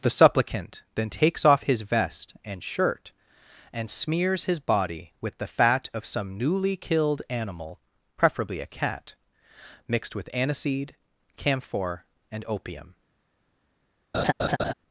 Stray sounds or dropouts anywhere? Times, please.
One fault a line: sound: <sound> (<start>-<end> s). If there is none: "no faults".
sound: laugh (14.1-14.7 s)